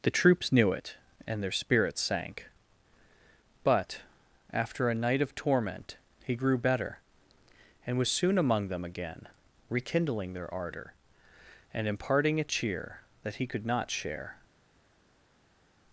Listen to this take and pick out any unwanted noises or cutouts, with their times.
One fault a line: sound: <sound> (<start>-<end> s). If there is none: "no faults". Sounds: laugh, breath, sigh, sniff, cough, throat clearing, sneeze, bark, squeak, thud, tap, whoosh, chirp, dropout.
no faults